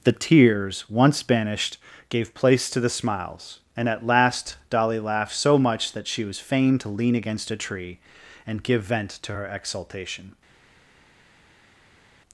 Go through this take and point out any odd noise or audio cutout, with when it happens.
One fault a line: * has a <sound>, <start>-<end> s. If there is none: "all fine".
all fine